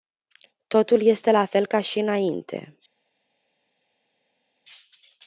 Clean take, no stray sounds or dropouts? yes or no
yes